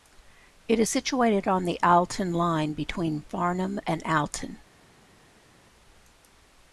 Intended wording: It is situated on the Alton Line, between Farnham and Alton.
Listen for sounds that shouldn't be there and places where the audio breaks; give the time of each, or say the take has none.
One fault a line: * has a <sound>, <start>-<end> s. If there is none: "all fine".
all fine